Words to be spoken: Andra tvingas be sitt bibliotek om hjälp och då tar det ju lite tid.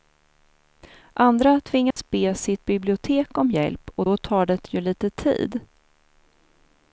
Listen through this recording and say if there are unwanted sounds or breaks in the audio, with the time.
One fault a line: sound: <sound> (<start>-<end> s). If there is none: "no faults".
sound: dropout (1.9-2.0 s)